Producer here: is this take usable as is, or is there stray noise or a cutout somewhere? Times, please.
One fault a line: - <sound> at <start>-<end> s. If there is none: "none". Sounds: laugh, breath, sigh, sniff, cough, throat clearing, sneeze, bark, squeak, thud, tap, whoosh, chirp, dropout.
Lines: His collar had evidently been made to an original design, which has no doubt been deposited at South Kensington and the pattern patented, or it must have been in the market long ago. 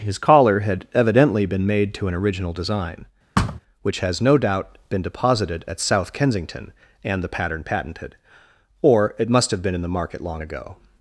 - thud at 3.4-3.6 s